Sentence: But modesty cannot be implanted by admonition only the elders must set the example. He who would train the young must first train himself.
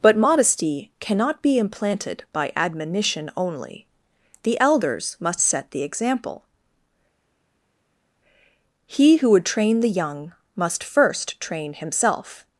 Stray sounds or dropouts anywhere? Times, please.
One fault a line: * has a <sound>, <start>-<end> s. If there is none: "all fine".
all fine